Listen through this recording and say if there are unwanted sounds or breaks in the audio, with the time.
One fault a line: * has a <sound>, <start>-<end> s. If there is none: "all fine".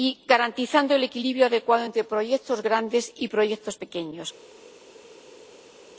all fine